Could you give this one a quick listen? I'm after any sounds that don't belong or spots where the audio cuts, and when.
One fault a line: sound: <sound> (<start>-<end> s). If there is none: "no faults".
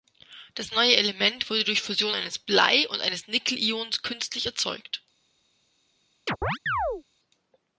sound: chirp (6.3-7.0 s)